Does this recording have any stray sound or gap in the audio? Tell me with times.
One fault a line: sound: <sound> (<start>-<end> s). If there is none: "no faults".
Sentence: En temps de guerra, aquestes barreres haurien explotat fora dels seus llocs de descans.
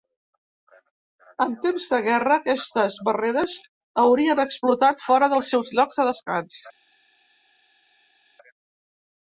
no faults